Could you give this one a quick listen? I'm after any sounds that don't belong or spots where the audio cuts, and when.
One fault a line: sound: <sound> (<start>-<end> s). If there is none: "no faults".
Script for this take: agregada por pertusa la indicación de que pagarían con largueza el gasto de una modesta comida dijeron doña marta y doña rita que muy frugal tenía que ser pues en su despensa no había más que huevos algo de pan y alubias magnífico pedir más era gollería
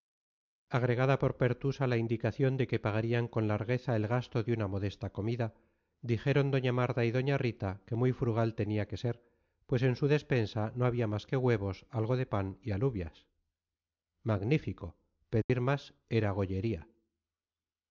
sound: dropout (15.4-15.5 s)